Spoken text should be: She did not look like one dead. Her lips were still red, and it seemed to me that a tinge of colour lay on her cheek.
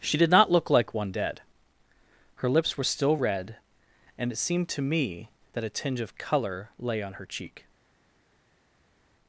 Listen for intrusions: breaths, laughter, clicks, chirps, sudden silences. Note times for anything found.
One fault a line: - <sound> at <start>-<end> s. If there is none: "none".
none